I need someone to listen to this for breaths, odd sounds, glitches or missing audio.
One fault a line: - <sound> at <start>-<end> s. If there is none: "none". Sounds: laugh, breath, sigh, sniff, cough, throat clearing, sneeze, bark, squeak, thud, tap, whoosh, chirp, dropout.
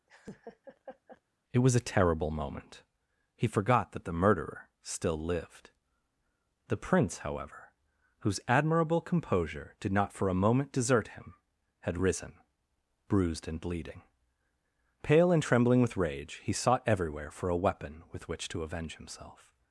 - laugh at 0.1-1.2 s